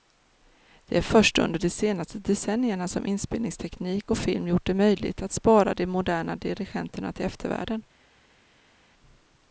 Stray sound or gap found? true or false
false